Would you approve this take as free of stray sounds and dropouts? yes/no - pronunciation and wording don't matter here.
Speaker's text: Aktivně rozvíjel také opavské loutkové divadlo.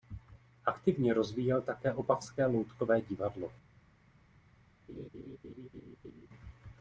no